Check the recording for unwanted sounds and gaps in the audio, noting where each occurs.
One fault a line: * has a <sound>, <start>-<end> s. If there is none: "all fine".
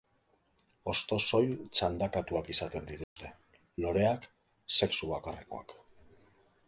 * has a dropout, 3.0-3.2 s